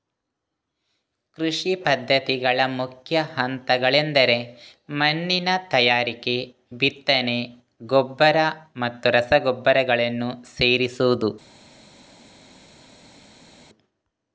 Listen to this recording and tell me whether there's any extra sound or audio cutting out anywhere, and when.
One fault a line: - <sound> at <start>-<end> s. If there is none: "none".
none